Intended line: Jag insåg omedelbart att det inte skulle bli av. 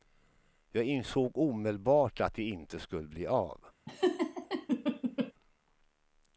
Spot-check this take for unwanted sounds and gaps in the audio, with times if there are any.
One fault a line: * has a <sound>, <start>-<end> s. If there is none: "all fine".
* has a laugh, 3.9-5.3 s